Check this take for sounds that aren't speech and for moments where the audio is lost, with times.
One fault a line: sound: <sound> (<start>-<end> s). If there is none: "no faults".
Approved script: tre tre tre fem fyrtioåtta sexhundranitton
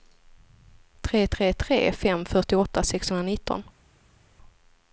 no faults